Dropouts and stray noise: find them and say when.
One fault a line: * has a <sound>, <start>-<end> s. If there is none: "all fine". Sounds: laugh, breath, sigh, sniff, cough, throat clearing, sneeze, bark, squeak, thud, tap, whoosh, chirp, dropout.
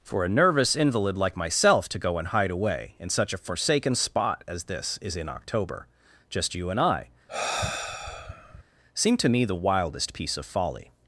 * has a sigh, 7.3-8.6 s